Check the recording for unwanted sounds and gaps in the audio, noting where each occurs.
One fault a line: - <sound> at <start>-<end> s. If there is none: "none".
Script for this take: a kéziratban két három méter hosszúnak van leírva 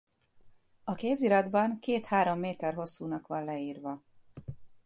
none